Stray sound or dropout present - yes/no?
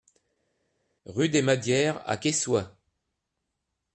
no